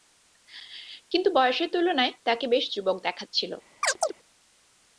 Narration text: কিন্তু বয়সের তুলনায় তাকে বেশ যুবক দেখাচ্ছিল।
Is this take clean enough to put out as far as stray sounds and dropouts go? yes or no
no